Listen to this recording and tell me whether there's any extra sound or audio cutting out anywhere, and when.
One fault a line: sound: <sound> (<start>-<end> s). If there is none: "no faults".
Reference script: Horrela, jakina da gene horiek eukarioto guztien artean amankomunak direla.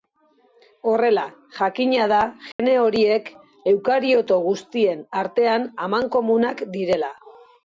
sound: dropout (2.5-2.6 s)